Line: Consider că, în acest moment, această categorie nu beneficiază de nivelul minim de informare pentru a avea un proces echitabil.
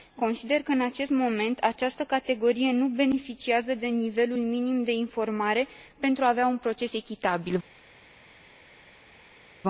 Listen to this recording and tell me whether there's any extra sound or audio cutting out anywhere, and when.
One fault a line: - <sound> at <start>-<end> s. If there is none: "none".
none